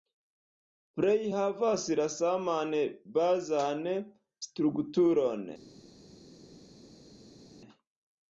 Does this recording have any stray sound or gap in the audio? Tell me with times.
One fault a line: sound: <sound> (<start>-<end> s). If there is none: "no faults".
no faults